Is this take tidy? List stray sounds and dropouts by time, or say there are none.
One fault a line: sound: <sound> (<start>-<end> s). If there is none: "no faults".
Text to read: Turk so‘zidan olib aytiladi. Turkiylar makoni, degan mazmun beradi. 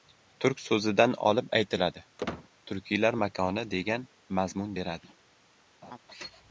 sound: squeak (2.2-2.5 s)
sound: laugh (5.8-6.0 s)